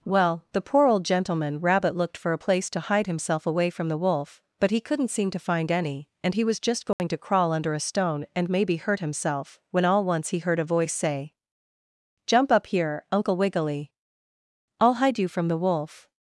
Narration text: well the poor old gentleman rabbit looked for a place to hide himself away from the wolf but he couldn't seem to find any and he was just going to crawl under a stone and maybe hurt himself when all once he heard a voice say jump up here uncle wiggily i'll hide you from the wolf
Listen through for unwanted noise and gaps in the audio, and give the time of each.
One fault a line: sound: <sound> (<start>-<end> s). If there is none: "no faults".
sound: dropout (6.9-7.0 s)